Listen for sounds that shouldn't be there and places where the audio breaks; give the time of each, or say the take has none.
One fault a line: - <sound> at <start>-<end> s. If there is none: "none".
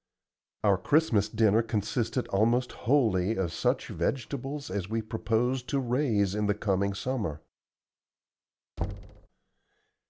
- thud at 8.8-9.3 s